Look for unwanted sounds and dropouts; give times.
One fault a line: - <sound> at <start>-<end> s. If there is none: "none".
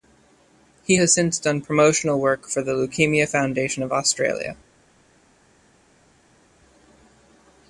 none